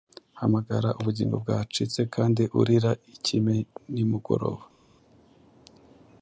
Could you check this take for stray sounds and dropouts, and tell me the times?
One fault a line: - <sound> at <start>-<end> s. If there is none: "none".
none